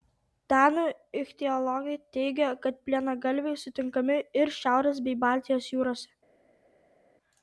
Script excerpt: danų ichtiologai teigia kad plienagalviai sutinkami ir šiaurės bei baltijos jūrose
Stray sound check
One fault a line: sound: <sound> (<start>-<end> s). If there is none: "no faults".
no faults